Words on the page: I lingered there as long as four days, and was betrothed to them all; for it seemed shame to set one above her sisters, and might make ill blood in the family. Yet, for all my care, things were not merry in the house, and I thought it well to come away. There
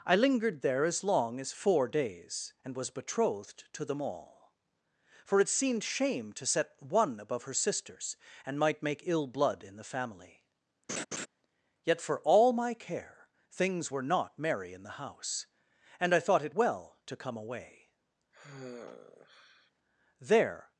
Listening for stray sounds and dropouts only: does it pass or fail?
fail